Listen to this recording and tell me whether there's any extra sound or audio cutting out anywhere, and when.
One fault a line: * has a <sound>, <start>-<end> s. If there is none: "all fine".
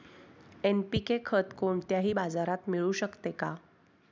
all fine